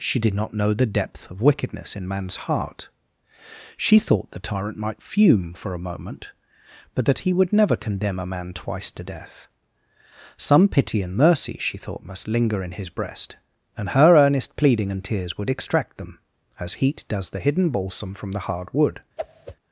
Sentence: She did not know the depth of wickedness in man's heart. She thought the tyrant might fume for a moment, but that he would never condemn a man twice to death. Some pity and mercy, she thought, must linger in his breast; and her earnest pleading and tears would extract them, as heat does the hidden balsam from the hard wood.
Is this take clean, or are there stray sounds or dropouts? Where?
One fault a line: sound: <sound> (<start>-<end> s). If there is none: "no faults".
sound: whoosh (19.2-19.6 s)